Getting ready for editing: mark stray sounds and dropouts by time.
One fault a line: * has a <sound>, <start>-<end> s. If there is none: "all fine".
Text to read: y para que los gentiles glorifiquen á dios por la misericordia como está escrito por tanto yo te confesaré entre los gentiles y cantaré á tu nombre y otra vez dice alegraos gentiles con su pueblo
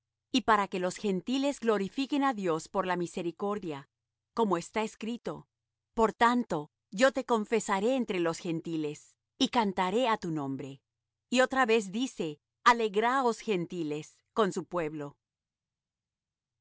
all fine